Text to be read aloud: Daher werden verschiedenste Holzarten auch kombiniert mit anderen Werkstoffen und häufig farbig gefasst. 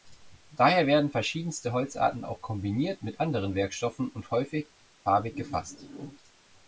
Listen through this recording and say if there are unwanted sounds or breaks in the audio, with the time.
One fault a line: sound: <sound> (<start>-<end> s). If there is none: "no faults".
no faults